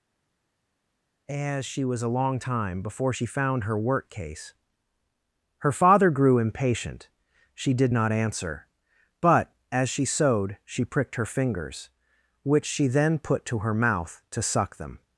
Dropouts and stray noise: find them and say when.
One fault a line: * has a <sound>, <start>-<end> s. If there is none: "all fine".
all fine